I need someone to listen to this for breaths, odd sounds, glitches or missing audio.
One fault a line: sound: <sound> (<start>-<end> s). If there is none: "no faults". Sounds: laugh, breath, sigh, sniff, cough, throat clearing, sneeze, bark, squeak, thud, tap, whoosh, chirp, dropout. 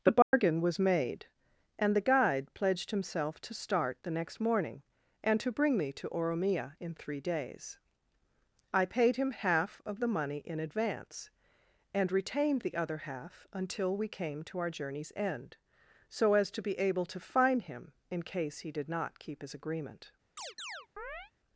sound: dropout (0.2-0.3 s)
sound: chirp (20.4-21.3 s)